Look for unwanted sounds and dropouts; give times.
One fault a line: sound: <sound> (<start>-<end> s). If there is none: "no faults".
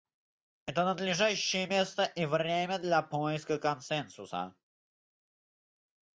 no faults